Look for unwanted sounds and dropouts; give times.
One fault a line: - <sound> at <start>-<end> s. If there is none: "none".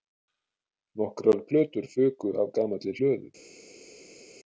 none